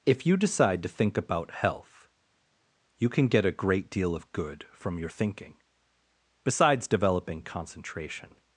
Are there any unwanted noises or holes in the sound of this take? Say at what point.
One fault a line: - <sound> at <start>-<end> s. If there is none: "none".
none